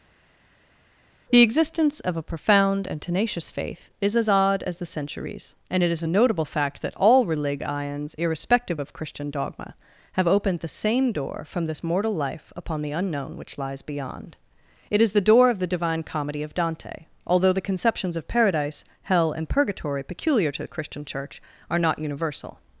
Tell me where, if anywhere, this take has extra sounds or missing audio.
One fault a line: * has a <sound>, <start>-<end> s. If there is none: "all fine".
all fine